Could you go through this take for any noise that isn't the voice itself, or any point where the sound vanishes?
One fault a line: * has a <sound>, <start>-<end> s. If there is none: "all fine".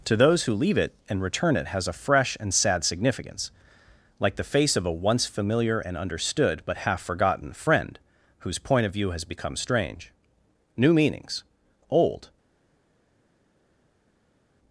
all fine